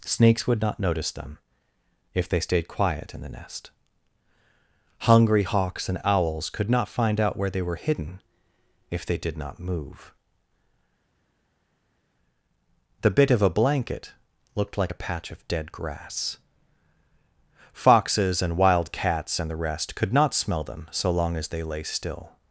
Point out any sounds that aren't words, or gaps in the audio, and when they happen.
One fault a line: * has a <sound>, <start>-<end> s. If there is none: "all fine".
all fine